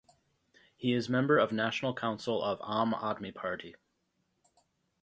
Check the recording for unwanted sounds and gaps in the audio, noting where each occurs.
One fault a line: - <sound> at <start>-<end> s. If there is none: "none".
none